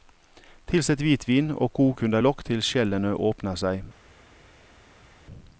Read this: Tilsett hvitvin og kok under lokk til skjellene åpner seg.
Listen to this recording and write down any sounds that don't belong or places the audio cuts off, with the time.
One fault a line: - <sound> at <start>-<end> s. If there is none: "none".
none